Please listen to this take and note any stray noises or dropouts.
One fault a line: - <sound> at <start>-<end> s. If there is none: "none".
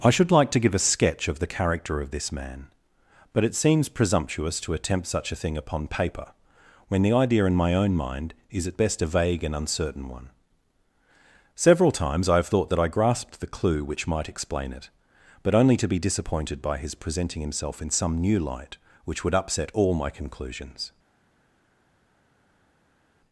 none